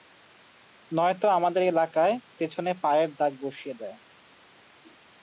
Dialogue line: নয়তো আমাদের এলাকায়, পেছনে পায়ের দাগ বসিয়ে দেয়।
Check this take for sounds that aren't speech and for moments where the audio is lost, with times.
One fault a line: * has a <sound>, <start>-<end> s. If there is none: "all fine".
all fine